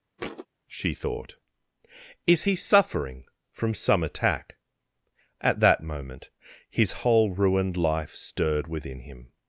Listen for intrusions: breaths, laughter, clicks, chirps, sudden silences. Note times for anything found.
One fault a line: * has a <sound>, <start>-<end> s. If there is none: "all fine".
* has a thud, 0.2-0.5 s